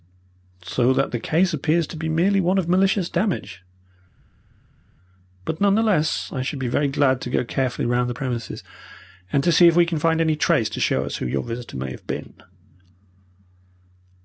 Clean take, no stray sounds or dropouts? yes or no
yes